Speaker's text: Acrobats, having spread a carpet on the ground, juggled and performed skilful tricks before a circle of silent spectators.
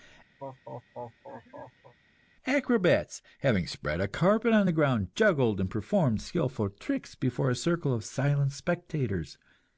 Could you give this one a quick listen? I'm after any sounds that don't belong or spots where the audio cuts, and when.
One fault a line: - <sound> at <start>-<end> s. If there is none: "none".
- laugh at 0.4-1.9 s